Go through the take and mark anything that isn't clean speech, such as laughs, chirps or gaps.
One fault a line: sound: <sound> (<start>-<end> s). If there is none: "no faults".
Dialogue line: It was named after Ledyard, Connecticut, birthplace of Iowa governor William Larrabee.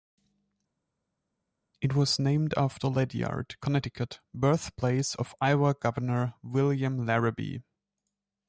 no faults